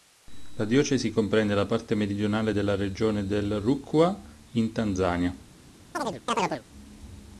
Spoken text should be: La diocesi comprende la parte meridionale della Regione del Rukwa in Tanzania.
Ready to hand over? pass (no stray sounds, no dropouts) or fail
fail